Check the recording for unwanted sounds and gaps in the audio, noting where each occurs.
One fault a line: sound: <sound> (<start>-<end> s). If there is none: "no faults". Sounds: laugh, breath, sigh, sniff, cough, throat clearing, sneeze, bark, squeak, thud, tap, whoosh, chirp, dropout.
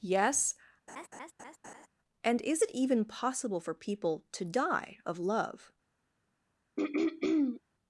sound: laugh (0.9-1.9 s)
sound: throat clearing (6.8-7.6 s)